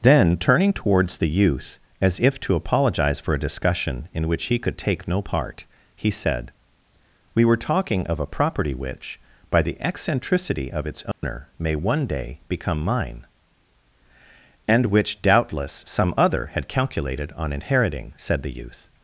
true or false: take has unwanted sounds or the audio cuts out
true